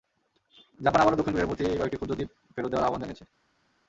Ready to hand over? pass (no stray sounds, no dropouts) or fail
pass